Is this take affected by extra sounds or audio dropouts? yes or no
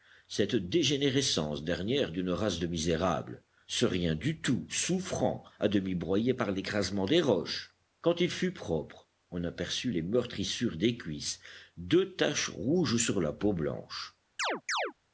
yes